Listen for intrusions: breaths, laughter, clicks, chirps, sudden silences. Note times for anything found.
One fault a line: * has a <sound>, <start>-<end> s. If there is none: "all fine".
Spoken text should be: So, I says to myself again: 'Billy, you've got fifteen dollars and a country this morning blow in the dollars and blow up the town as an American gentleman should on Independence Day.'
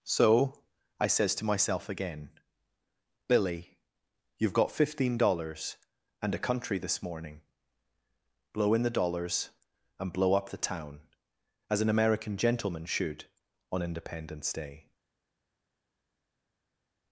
all fine